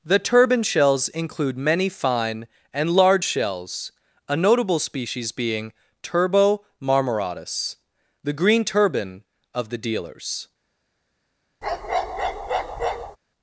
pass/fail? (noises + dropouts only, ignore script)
fail